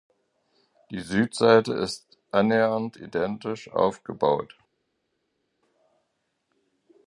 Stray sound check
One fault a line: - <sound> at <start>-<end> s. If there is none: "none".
none